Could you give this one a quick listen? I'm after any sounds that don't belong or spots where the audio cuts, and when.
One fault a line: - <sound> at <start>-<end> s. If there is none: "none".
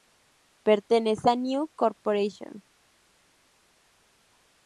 none